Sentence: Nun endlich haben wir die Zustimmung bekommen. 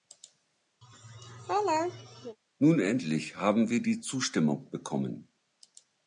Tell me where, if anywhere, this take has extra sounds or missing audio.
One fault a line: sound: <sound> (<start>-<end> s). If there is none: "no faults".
sound: laugh (0.8-2.4 s)